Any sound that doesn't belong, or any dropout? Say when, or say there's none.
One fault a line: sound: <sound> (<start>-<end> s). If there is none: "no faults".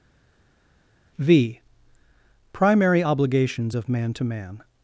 no faults